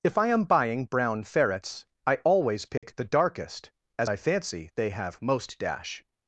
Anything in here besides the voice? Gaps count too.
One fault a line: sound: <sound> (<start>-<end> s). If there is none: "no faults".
sound: dropout (2.8-2.8 s)